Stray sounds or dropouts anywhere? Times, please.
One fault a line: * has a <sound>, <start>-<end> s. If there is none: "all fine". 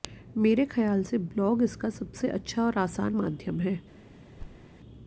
* has a thud, 4.4-4.7 s